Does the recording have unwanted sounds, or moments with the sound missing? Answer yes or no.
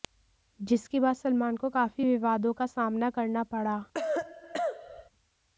yes